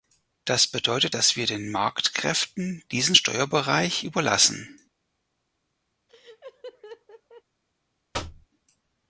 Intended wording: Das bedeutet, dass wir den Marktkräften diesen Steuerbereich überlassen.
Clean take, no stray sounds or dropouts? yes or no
no